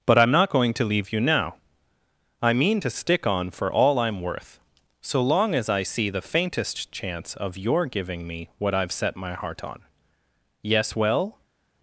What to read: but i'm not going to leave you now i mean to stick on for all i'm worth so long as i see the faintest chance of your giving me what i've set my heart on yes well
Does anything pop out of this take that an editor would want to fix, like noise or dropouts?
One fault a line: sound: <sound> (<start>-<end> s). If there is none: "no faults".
no faults